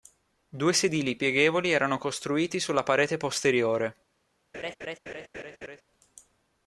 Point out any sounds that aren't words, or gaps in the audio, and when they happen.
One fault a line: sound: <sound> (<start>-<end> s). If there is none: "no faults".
sound: laugh (4.5-5.8 s)